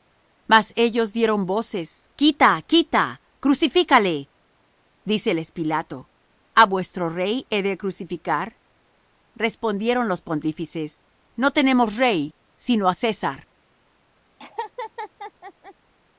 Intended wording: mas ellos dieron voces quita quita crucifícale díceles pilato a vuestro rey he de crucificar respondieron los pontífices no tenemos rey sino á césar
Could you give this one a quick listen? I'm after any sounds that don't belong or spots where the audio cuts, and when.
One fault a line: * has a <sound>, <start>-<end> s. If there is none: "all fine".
* has a laugh, 14.4-15.7 s